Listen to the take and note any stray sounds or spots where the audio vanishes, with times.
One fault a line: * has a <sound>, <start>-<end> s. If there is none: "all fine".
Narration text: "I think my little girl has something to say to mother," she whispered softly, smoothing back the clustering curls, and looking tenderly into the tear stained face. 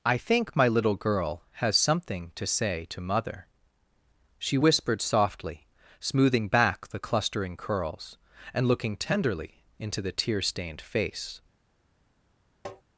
* has a tap, 12.6-12.8 s